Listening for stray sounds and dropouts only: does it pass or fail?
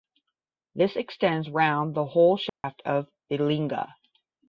fail